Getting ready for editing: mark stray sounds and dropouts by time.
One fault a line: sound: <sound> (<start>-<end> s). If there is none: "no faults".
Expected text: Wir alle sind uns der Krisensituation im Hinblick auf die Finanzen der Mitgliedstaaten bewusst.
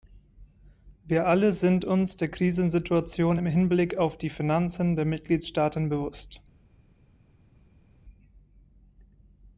no faults